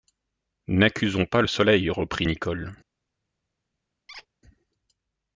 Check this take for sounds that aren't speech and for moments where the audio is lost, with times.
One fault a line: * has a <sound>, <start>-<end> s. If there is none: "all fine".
* has a squeak, 4.1-4.3 s